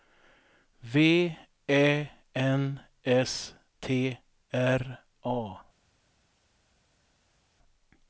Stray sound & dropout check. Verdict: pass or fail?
pass